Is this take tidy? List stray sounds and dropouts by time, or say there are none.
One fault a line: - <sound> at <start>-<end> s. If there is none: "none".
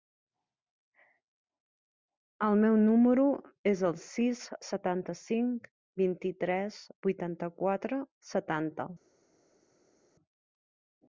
none